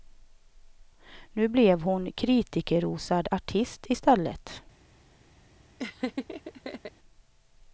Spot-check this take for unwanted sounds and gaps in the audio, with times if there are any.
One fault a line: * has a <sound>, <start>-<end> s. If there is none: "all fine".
* has a laugh, 5.8-6.9 s